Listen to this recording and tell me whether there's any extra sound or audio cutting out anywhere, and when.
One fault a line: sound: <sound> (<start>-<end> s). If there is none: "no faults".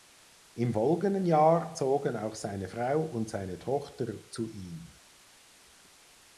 no faults